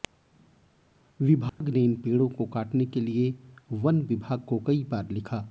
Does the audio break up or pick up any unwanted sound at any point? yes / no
yes